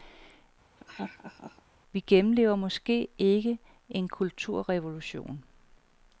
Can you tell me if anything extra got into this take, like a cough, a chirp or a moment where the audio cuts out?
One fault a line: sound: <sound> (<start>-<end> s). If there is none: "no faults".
sound: laugh (0.8-1.6 s)